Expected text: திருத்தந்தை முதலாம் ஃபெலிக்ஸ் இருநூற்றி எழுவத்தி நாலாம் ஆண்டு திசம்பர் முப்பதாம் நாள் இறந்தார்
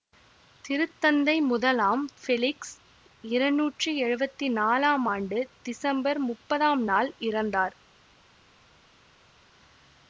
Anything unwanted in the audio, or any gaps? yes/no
no